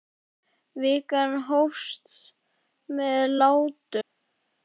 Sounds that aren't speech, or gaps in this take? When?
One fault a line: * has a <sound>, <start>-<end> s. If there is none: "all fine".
all fine